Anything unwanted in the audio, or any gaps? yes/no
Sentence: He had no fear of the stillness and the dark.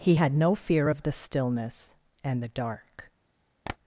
yes